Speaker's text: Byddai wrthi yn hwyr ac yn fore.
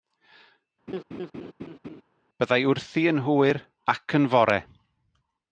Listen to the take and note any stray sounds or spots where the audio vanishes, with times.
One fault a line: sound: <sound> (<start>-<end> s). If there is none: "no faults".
sound: laugh (0.9-2.0 s)